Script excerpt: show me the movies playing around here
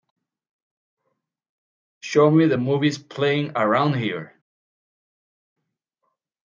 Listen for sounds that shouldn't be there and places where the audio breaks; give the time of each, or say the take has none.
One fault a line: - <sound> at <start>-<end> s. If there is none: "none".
none